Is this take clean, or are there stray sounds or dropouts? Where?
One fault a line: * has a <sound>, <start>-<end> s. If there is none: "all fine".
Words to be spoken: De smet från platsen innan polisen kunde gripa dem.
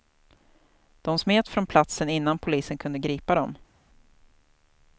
all fine